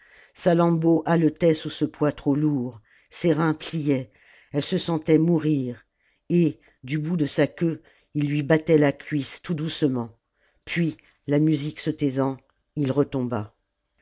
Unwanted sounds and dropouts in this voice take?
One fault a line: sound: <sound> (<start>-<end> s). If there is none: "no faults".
no faults